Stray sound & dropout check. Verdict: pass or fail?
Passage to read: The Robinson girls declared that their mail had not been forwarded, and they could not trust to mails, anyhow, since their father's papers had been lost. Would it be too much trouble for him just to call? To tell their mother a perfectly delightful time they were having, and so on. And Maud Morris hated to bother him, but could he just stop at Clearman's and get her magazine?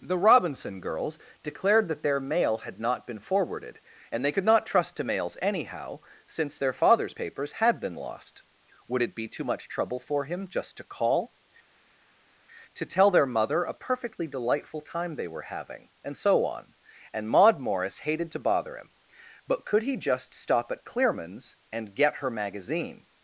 pass